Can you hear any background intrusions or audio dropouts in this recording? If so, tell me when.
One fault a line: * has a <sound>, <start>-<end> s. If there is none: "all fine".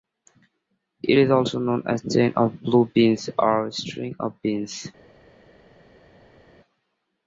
all fine